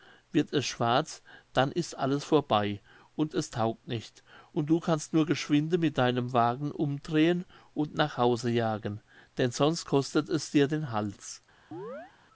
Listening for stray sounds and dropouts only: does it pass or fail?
fail